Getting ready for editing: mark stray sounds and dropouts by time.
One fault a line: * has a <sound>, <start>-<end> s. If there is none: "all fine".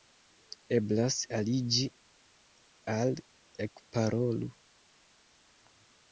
all fine